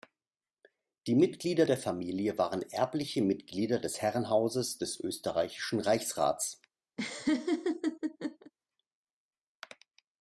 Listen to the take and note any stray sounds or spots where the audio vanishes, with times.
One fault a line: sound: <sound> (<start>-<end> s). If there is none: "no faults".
sound: laugh (7.0-8.5 s)